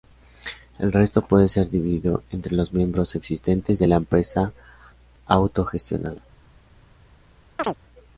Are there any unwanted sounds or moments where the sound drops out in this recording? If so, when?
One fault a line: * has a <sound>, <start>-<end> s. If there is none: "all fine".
* has a chirp, 7.6-7.8 s